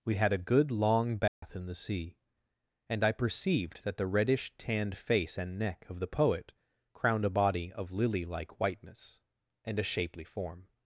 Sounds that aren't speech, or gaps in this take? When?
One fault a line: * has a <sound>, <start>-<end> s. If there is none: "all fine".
* has a dropout, 1.3-1.4 s